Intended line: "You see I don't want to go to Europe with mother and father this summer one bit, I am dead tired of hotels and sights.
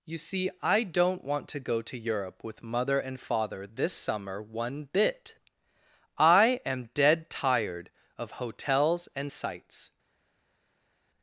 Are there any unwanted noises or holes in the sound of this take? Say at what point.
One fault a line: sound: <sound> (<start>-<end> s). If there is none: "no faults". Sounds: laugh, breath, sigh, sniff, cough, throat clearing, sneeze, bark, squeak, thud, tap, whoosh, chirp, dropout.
no faults